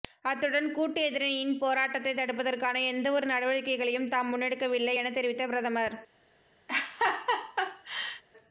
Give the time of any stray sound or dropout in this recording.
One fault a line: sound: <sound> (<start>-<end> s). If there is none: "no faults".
sound: laugh (6.7-8.2 s)